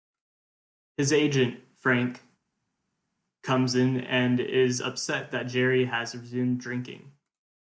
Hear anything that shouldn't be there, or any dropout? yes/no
no